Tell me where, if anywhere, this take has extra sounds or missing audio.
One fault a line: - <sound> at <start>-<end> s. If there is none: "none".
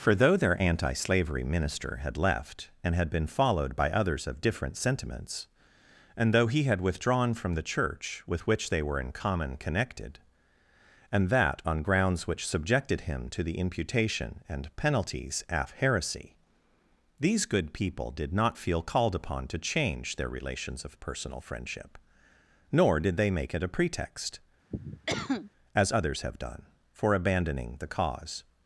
- cough at 24.7-25.5 s